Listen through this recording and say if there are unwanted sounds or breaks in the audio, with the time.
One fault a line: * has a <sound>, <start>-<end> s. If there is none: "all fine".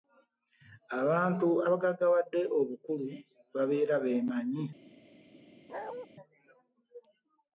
* has a bark, 5.7-6.1 s